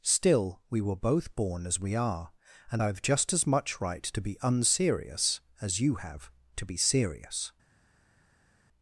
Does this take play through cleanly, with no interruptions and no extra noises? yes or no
yes